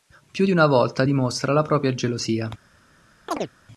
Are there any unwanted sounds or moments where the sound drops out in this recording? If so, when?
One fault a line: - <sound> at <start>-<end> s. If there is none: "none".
- chirp at 3.3-3.5 s